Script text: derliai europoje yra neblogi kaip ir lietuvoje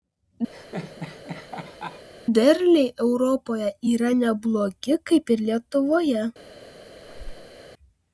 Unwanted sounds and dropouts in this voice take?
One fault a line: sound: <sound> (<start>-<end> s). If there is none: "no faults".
sound: laugh (0.5-2.1 s)
sound: squeak (7.0-7.6 s)